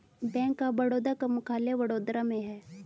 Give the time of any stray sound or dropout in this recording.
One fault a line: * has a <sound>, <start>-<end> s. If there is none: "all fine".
all fine